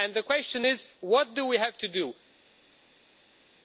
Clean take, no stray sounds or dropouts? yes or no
yes